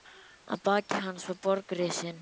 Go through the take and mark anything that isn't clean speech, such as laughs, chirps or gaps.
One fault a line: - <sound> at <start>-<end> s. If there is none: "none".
none